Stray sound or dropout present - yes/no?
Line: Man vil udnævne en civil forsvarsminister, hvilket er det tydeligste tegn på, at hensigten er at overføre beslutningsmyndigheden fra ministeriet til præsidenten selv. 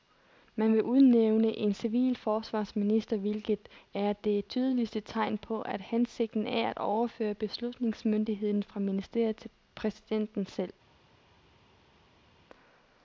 no